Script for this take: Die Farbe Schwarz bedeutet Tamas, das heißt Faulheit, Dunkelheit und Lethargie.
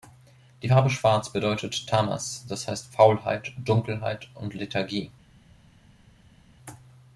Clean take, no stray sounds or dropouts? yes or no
yes